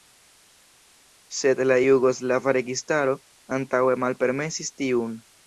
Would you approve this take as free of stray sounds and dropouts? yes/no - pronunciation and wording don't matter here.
yes